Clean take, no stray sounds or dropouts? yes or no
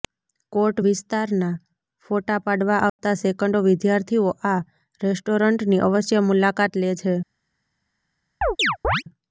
no